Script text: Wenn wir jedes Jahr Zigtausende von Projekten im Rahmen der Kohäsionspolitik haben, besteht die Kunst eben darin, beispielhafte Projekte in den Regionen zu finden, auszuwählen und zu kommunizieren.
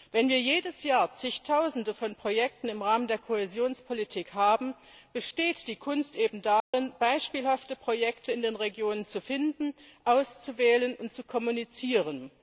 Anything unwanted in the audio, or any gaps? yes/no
yes